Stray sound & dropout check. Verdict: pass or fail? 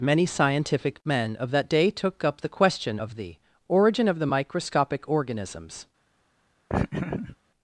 fail